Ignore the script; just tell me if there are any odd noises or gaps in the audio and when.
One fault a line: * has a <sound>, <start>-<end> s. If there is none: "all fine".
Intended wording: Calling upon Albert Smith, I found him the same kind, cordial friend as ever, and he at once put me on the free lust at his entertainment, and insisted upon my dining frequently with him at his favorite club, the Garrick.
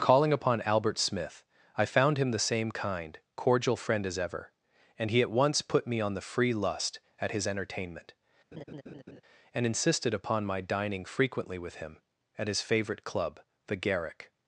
* has a laugh, 8.5-9.2 s